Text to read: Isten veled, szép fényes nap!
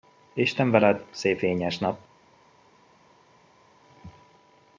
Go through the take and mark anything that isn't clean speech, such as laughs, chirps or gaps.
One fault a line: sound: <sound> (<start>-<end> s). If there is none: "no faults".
no faults